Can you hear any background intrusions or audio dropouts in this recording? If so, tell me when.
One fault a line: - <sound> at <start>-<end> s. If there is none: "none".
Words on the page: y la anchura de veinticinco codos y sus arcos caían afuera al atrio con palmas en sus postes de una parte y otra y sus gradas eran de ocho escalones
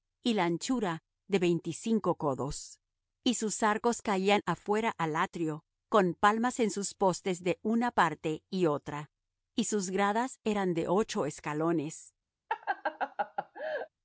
- laugh at 12.5-13.9 s